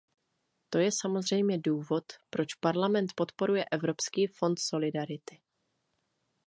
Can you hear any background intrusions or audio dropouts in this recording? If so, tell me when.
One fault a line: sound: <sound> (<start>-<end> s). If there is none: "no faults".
no faults